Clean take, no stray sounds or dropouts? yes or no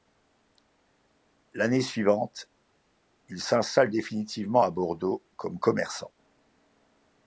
yes